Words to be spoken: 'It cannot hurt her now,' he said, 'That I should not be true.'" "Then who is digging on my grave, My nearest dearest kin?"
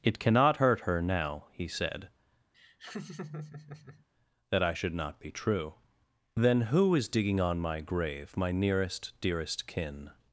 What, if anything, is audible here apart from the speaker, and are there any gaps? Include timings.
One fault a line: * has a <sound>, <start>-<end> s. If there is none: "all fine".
* has a laugh, 2.5-4.1 s